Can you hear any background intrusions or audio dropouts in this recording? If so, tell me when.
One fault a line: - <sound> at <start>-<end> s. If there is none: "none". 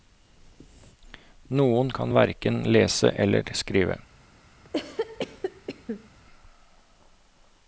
- cough at 4.6-6.1 s